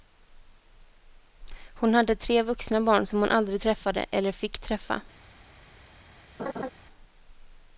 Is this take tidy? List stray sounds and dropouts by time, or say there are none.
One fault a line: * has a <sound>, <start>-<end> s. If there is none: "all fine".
* has a laugh, 6.4-6.7 s